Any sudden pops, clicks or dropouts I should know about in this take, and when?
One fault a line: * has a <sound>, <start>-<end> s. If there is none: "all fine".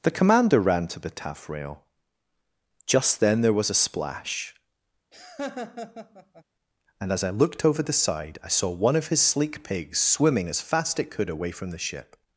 * has a laugh, 5.1-6.4 s